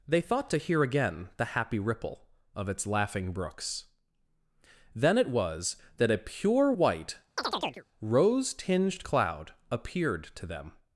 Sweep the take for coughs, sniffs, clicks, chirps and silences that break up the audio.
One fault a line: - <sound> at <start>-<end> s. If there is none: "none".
- chirp at 7.4-7.8 s